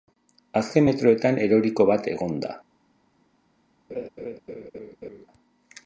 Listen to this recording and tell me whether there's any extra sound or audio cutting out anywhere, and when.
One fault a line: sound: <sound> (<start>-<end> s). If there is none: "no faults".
sound: laugh (3.9-5.3 s)